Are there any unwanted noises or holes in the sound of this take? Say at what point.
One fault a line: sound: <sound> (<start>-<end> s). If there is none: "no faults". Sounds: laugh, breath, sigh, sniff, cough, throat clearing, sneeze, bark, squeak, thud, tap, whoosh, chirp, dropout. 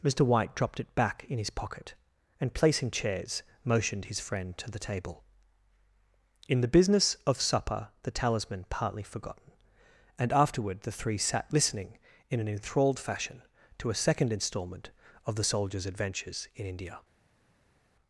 no faults